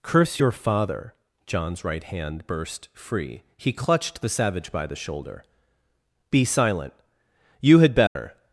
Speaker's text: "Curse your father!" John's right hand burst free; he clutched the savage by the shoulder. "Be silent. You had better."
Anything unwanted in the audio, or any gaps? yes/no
yes